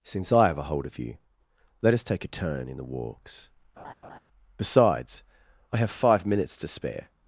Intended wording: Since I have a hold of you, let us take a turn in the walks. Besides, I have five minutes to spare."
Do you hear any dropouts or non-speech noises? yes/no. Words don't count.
yes